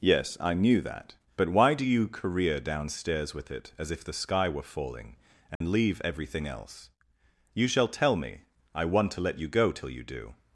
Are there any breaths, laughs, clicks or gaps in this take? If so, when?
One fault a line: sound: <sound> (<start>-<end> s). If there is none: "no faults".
sound: dropout (5.6-5.6 s)